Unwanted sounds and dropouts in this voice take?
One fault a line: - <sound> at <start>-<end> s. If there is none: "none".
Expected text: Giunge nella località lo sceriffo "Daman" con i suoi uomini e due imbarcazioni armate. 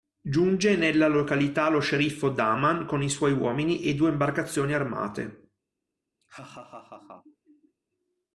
- laugh at 6.2-7.8 s